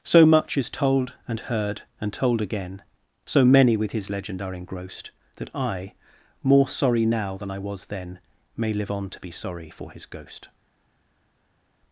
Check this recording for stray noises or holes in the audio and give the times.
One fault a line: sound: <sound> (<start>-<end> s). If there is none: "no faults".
no faults